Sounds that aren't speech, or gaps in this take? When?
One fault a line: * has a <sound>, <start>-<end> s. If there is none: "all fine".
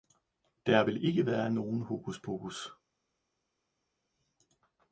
all fine